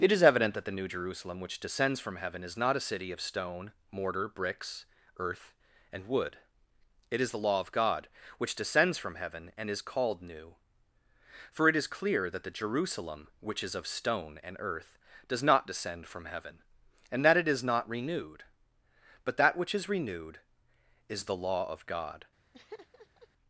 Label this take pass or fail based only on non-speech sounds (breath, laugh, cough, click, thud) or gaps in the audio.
fail